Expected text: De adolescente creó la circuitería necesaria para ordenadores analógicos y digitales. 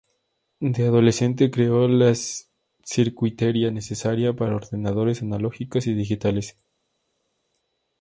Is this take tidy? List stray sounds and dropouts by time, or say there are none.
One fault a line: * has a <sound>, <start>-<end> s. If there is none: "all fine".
all fine